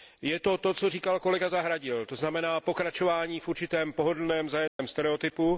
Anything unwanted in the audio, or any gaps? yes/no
yes